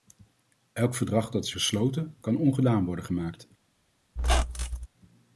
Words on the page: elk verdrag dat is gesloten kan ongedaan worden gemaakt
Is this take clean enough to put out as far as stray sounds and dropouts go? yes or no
no